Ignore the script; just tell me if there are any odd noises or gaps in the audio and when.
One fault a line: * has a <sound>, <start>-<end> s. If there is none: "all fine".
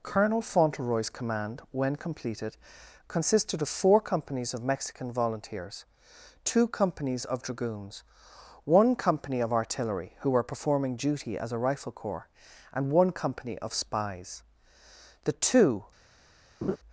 * has a laugh, 16.6-16.8 s